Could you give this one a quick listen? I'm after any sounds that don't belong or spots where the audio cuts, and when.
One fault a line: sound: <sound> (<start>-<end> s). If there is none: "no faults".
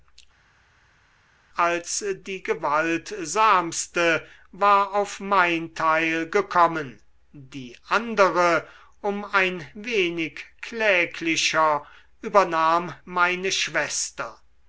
no faults